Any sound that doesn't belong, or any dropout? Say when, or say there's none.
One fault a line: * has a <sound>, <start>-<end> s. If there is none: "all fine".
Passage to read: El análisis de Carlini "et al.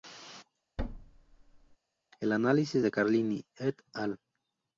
* has a thud, 0.8-1.8 s